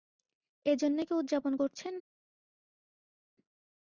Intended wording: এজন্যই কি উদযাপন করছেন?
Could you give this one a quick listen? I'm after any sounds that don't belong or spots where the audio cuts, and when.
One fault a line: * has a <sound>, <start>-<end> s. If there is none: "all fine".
all fine